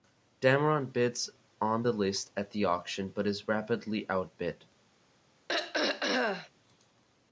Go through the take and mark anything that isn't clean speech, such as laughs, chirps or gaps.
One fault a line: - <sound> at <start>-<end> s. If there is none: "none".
- throat clearing at 5.5-6.5 s